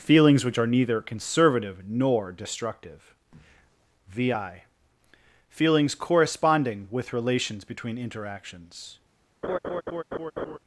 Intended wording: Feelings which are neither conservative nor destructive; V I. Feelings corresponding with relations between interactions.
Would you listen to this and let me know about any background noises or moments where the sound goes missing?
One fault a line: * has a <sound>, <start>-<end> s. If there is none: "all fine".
* has a laugh, 9.4-10.6 s